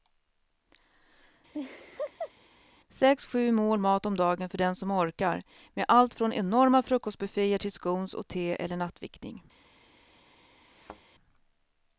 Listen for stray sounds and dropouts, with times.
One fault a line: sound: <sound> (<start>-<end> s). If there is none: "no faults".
sound: laugh (1.5-2.3 s)
sound: thud (10.7-11.0 s)